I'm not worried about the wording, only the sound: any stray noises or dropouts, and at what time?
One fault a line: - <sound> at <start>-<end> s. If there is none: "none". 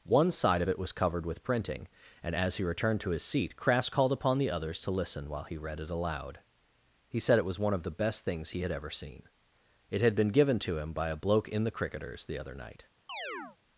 - chirp at 13.1-13.6 s